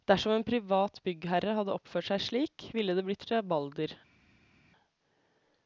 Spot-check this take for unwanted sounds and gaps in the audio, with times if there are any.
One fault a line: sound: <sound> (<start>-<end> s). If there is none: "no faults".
no faults